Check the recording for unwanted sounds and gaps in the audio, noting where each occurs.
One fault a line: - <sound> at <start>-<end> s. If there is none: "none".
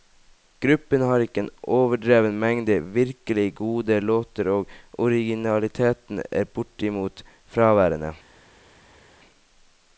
none